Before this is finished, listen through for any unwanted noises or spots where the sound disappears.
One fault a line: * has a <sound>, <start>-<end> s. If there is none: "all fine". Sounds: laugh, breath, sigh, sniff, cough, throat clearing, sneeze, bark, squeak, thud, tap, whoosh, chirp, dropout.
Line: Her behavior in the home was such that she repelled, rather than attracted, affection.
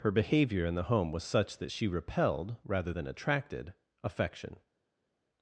all fine